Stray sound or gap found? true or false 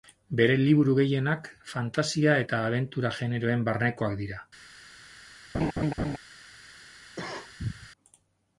true